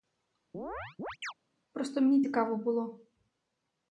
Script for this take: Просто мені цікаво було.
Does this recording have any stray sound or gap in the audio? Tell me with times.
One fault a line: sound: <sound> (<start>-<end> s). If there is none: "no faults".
sound: chirp (0.5-1.3 s)